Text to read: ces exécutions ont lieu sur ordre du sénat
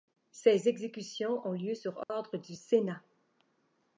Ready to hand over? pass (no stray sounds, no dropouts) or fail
fail